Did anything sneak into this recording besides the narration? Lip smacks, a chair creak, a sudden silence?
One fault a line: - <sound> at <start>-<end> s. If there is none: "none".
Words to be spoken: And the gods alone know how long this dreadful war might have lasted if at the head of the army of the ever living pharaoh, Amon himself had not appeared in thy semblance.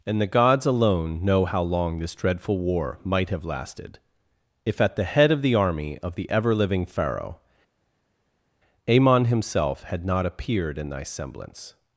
none